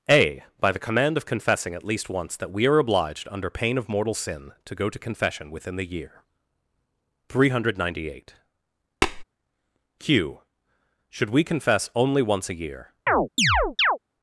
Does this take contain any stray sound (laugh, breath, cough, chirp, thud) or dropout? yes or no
yes